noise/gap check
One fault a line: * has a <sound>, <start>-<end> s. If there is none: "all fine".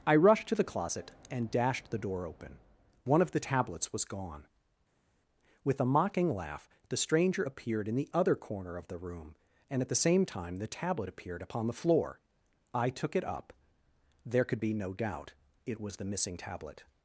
all fine